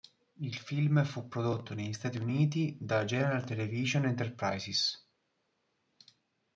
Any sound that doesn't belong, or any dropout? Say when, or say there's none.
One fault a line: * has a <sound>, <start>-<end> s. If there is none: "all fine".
all fine